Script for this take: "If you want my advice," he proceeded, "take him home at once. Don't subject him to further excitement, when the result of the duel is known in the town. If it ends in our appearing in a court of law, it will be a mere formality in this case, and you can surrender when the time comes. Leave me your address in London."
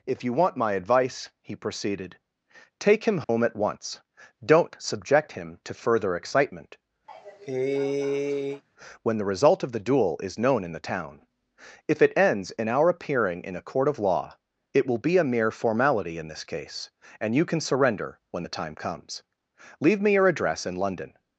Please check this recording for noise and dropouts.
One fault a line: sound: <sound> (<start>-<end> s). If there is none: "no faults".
sound: dropout (3.2-3.3 s)
sound: cough (7.1-8.6 s)